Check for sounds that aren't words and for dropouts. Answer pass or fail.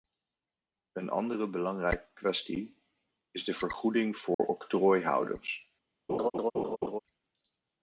fail